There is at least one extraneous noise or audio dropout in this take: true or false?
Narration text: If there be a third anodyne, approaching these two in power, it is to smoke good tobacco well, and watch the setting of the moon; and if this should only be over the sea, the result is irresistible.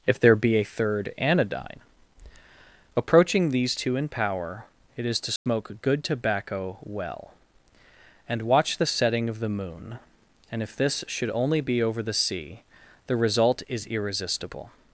true